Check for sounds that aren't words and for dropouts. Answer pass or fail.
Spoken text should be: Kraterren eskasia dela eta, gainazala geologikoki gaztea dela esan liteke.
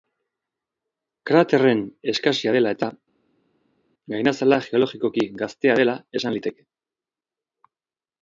pass